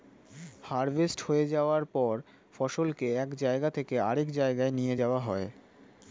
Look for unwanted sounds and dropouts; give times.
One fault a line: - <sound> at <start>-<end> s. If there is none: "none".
none